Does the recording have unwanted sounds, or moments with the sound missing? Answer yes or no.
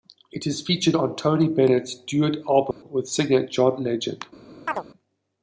yes